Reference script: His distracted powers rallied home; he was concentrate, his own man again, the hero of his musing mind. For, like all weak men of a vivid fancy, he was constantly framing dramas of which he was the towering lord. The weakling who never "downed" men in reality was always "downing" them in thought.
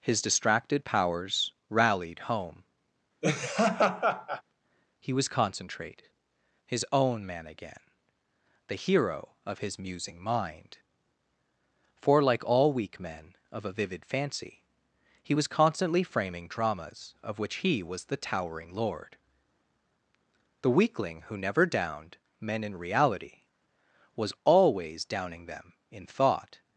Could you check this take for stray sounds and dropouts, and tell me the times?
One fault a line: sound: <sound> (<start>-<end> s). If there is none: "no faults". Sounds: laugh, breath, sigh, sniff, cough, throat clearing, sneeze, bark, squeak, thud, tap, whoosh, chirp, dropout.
sound: laugh (3.2-4.4 s)